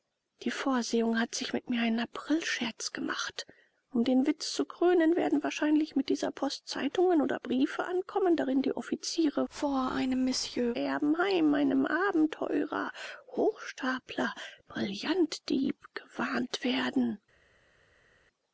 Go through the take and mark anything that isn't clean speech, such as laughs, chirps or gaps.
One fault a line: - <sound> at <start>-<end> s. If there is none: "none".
none